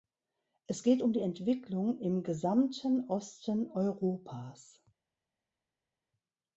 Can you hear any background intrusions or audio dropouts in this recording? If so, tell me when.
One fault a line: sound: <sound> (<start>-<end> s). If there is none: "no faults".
no faults